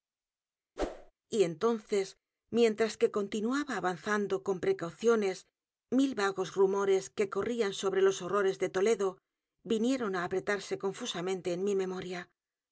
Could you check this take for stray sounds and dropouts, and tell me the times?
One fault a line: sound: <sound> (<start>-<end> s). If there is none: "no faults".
sound: whoosh (0.8-1.1 s)